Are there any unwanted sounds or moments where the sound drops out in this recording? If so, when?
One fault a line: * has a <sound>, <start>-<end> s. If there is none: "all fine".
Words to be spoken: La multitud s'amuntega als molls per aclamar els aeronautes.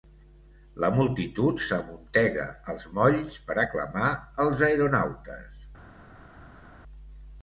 all fine